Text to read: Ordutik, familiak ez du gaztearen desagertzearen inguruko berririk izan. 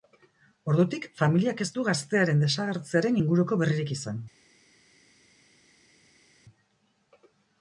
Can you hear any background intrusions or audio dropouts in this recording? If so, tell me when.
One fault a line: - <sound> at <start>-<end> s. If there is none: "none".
none